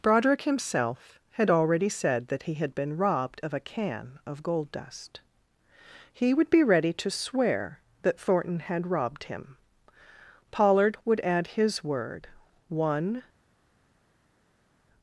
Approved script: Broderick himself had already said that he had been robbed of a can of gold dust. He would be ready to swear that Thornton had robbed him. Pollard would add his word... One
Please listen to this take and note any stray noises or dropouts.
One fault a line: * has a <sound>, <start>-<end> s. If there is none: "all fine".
all fine